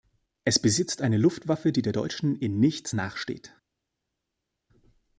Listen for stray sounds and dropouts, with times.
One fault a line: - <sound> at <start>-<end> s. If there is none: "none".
none